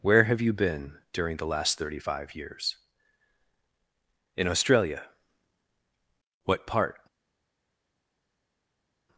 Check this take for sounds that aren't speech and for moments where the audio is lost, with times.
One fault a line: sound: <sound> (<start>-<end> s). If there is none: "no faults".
no faults